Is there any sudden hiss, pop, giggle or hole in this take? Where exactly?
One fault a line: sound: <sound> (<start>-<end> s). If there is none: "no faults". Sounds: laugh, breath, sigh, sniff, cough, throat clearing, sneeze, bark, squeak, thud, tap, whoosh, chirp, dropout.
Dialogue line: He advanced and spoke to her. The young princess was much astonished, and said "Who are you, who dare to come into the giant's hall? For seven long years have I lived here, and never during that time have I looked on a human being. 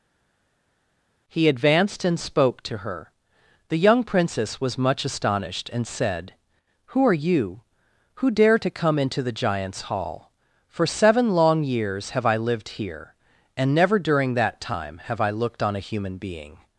no faults